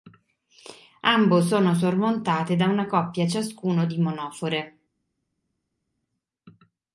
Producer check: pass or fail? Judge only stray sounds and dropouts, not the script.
pass